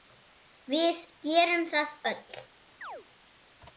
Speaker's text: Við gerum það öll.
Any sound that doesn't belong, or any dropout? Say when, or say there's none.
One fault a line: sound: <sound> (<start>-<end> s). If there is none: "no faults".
sound: chirp (2.8-3.1 s)